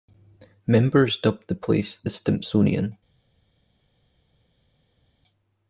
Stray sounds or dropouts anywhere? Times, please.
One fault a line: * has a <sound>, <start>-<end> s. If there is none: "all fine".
all fine